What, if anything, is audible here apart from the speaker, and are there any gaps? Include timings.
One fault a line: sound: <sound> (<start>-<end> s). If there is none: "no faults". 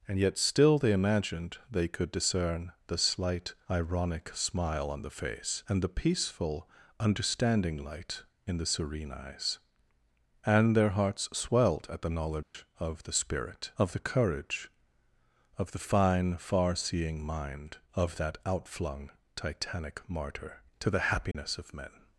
sound: dropout (12.4-12.5 s)
sound: dropout (21.3-21.3 s)